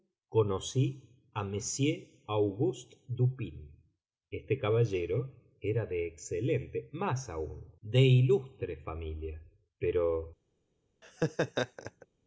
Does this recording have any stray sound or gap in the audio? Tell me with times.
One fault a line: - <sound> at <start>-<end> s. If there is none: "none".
- laugh at 11.0-12.1 s